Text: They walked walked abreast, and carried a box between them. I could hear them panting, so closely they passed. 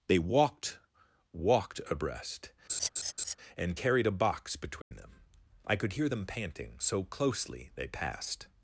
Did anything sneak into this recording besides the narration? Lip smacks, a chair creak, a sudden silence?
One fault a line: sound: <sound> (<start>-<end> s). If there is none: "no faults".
sound: laugh (2.7-3.4 s)
sound: dropout (4.8-4.9 s)